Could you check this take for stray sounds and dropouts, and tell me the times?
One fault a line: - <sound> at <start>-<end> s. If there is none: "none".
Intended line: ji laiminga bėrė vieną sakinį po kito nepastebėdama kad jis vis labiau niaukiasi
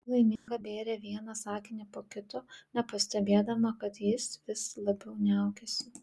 - dropout at 0.4-0.5 s